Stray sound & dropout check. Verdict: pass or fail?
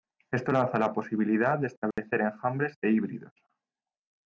fail